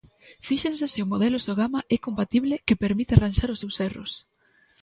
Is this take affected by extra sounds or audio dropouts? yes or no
no